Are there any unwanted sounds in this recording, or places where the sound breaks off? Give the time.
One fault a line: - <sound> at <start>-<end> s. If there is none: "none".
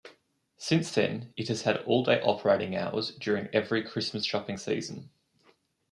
none